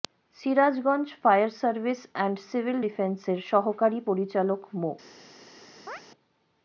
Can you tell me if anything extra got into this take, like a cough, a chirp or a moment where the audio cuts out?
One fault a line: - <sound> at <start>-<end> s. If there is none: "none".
- chirp at 5.9-6.0 s